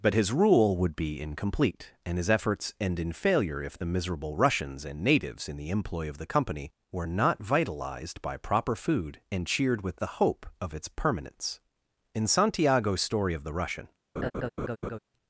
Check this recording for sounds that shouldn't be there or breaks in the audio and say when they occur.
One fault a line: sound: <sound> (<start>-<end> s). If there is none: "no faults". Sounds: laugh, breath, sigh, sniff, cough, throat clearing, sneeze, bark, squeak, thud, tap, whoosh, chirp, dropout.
sound: laugh (14.2-15.0 s)